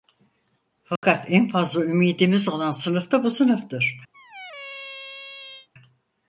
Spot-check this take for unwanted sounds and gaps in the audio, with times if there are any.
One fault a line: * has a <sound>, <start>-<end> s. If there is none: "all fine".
* has a dropout, 1.0-1.0 s
* has a squeak, 4.1-5.7 s